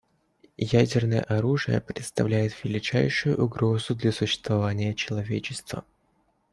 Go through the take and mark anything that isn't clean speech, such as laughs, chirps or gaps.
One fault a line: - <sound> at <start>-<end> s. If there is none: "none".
none